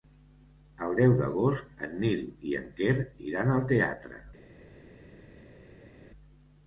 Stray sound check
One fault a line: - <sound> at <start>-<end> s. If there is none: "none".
none